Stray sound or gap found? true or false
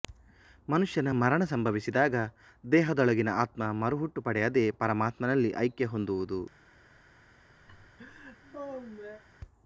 true